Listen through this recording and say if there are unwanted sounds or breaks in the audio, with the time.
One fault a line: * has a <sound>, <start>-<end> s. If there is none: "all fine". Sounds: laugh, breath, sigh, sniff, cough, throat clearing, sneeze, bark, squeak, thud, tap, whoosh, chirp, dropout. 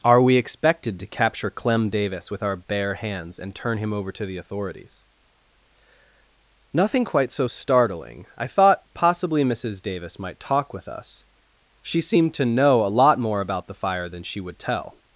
all fine